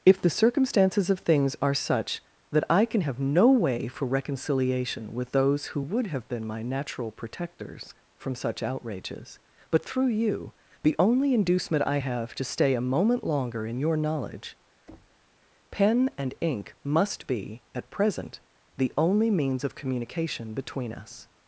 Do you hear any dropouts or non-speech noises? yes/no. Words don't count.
yes